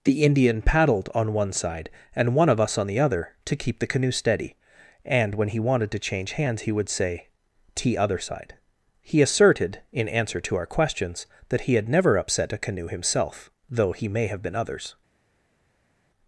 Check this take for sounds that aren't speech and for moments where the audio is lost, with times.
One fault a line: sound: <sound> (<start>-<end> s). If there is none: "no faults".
no faults